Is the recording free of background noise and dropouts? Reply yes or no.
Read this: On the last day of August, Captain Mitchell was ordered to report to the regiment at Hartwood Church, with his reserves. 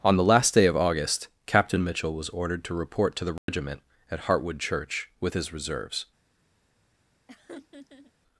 no